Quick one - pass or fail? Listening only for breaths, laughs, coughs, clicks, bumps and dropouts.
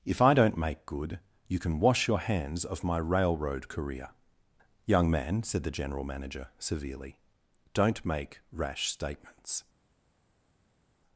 pass